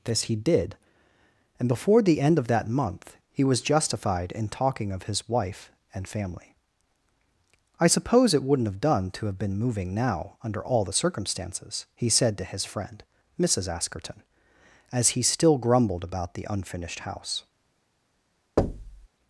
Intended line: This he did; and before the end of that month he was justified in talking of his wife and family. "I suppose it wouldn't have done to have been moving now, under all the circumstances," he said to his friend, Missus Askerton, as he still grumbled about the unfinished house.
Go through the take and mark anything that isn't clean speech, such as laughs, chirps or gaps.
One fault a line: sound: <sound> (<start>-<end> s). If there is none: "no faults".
sound: thud (18.6-19.1 s)